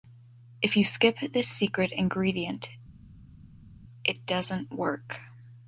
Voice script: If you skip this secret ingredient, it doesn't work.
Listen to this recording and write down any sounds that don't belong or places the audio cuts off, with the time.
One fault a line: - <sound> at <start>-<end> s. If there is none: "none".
none